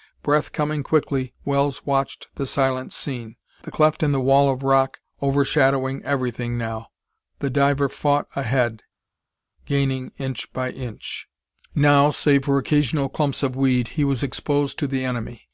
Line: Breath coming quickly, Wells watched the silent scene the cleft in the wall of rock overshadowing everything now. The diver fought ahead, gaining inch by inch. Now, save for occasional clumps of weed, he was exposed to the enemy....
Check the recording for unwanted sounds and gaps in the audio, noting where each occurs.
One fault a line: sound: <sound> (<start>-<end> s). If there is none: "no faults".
no faults